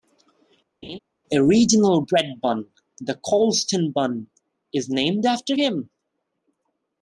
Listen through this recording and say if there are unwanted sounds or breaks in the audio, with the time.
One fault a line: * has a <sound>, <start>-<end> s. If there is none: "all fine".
* has a laugh, 0.8-1.0 s